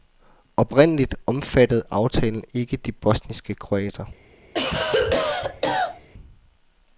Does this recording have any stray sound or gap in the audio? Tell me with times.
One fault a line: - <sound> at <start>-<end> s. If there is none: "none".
- cough at 4.5-6.1 s